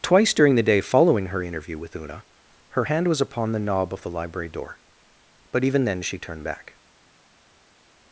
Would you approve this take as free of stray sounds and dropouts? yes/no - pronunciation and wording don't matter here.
yes